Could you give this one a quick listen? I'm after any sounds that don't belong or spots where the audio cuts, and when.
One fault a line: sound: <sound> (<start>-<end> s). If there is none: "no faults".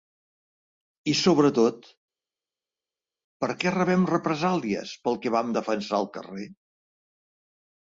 no faults